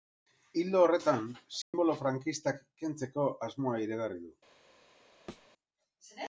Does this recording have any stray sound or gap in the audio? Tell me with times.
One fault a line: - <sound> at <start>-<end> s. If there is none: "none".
- dropout at 1.6-1.7 s
- thud at 5.3-5.5 s